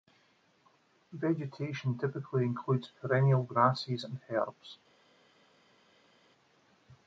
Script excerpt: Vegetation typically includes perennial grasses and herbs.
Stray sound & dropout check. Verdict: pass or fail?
pass